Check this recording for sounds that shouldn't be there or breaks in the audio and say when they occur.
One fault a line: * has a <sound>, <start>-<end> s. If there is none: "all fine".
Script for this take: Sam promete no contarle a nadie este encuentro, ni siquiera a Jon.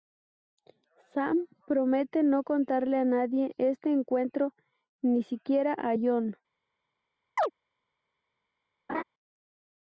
* has a chirp, 7.4-7.5 s
* has a laugh, 8.9-9.0 s